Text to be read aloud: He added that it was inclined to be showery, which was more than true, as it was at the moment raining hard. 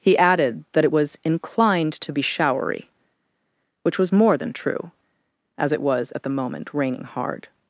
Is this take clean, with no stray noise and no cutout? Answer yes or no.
yes